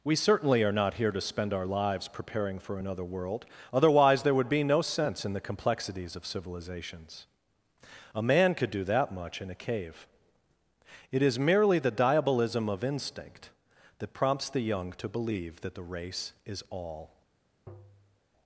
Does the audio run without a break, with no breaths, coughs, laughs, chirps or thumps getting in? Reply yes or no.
no